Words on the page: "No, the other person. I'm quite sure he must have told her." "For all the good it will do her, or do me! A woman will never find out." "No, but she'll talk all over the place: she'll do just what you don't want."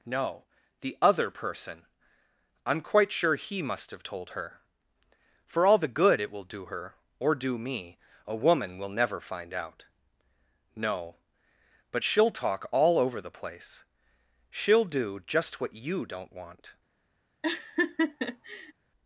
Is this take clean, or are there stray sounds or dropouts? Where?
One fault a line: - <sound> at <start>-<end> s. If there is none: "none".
- laugh at 17.4-18.7 s